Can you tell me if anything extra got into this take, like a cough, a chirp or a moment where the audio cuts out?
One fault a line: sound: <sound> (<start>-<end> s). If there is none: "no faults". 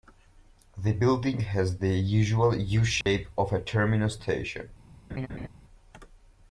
sound: dropout (3.0-3.1 s)
sound: laugh (5.1-5.5 s)